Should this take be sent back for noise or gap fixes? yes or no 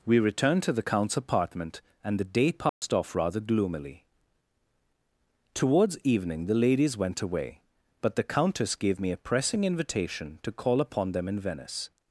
yes